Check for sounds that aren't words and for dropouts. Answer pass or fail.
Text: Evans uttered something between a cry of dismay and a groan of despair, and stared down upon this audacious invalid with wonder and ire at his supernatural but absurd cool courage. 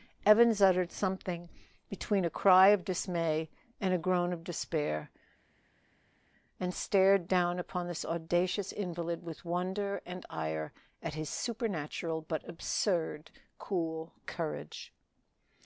pass